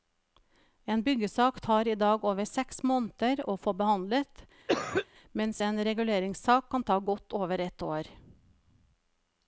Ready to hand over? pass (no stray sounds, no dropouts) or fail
fail